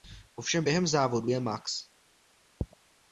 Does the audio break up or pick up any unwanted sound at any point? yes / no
no